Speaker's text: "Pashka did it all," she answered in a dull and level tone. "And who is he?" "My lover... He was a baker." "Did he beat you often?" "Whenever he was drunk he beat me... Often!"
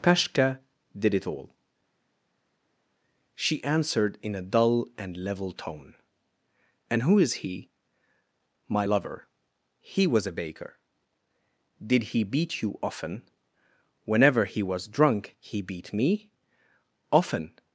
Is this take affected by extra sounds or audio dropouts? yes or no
no